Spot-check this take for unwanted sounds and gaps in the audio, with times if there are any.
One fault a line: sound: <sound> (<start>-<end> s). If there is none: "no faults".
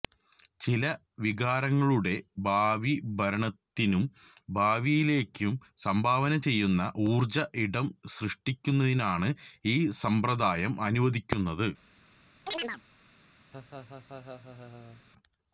sound: chirp (12.5-12.8 s)
sound: laugh (13.5-15.0 s)